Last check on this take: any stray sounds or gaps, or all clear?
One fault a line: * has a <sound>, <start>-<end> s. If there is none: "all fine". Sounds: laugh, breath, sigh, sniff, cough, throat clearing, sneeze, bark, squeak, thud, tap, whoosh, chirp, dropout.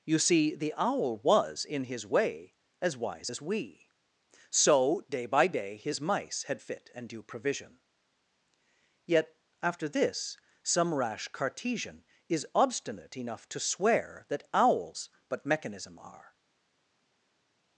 all fine